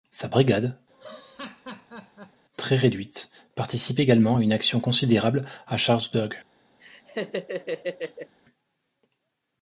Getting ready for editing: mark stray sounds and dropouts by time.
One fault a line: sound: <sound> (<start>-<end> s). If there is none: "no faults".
sound: laugh (0.9-2.5 s)
sound: laugh (6.8-8.3 s)